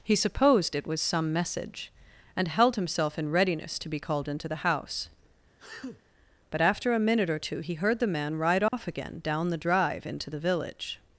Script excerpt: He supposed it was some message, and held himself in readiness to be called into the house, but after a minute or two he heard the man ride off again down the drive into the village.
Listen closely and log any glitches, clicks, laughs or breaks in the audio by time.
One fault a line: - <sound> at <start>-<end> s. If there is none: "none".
- sneeze at 5.6-6.0 s
- dropout at 8.7-8.7 s